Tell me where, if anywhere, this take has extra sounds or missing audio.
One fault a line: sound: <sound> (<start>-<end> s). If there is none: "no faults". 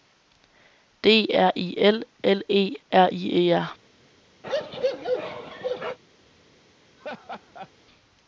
sound: bark (4.4-6.0 s)
sound: laugh (7.0-7.7 s)